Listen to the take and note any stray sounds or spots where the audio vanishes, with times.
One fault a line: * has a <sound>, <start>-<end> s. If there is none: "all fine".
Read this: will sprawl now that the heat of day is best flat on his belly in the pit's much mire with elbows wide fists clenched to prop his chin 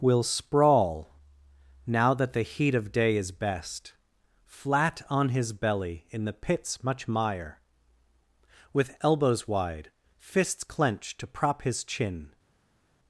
all fine